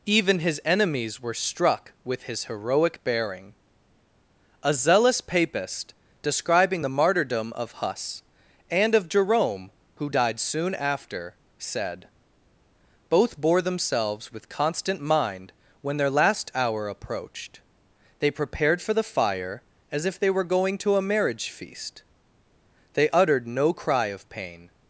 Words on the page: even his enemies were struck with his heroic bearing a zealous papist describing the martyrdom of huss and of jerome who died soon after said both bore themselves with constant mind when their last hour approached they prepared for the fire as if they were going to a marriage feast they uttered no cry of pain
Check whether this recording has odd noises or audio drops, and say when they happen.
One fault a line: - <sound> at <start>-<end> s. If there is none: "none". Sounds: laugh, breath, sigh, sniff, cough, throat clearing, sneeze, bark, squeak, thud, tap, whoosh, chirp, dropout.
none